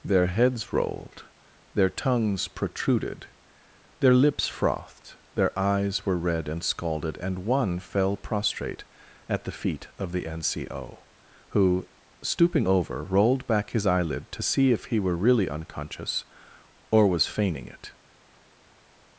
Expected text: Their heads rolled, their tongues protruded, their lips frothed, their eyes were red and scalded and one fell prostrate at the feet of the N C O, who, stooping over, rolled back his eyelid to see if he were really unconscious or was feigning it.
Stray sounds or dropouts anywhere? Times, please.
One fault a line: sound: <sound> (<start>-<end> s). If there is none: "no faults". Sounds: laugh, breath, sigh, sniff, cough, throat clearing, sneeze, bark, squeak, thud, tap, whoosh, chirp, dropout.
no faults